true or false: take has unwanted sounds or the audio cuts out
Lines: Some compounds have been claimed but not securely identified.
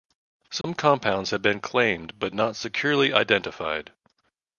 true